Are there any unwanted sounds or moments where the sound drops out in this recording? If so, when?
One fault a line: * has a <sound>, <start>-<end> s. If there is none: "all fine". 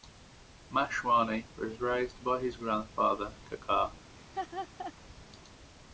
* has a laugh, 4.2-4.9 s